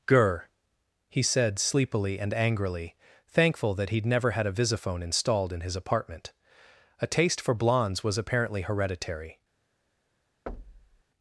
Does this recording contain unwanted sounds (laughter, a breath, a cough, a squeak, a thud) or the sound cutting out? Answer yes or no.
yes